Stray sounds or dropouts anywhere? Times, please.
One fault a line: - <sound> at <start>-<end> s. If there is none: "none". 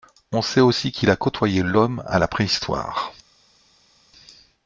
none